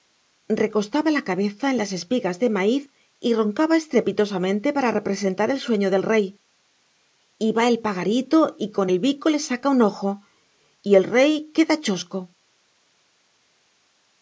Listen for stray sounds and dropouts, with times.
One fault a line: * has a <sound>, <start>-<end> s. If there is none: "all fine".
all fine